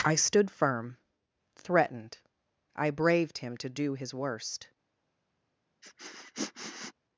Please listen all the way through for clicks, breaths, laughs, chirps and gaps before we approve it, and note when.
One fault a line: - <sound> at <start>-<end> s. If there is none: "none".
- sniff at 5.8-6.9 s